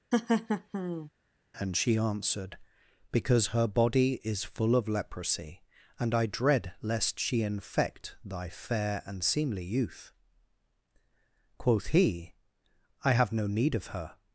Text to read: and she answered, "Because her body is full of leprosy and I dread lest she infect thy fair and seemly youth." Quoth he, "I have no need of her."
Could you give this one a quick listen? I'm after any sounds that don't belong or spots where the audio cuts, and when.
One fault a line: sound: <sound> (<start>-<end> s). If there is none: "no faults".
sound: laugh (0.1-1.1 s)